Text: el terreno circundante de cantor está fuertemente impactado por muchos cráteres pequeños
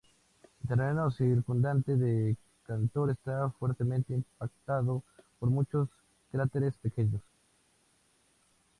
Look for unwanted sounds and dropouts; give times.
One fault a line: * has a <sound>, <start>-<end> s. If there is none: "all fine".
all fine